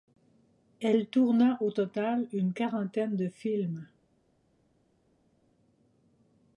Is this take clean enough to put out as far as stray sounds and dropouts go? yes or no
yes